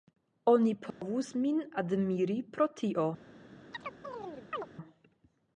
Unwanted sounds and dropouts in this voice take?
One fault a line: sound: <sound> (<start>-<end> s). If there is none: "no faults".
sound: dropout (0.9-1.0 s)
sound: chirp (3.7-4.7 s)